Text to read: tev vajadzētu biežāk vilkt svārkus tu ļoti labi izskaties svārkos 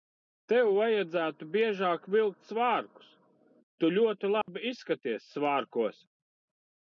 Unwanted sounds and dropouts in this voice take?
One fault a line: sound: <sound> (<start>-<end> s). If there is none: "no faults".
sound: dropout (4.4-4.5 s)